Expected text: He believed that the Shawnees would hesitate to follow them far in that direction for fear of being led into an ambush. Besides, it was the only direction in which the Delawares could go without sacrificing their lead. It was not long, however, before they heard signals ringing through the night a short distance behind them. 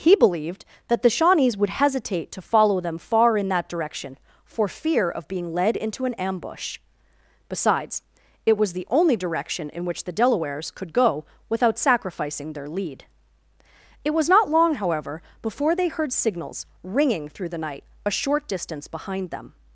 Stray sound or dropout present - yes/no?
no